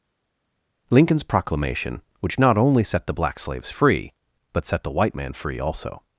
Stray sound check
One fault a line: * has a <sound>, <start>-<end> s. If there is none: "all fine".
all fine